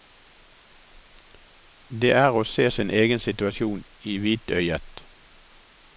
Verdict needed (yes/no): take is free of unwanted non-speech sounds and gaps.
yes